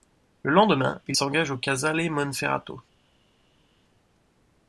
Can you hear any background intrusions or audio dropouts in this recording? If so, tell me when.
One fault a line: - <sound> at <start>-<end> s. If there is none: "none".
none